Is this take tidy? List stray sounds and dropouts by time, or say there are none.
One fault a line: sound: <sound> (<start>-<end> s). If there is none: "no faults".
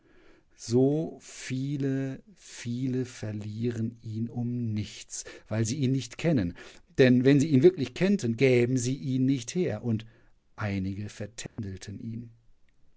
sound: dropout (11.5-11.6 s)